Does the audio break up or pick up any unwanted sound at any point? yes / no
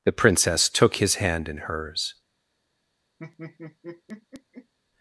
yes